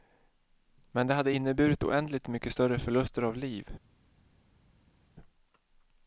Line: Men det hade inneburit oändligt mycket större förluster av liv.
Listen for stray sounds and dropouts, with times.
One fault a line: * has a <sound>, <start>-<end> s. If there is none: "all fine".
all fine